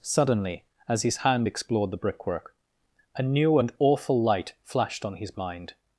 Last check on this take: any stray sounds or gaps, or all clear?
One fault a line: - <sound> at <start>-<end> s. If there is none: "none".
none